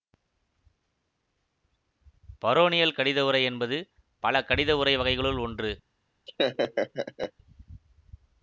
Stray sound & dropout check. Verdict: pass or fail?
fail